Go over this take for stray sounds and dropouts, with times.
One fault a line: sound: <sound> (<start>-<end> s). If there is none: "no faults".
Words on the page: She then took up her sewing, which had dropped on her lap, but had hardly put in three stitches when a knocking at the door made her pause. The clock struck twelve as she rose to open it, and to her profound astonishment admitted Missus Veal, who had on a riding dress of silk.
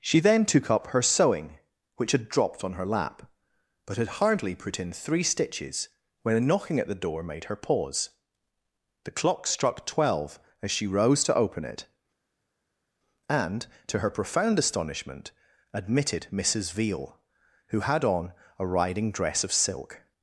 no faults